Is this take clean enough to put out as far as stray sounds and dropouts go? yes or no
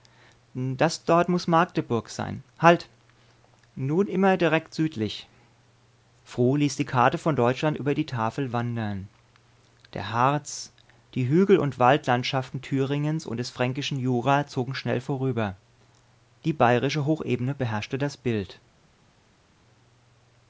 yes